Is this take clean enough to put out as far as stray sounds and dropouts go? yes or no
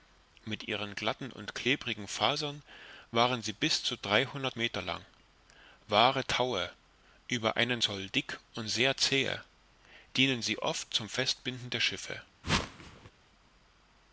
no